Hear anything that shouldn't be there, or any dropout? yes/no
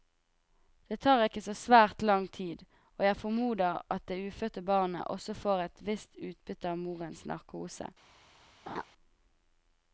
yes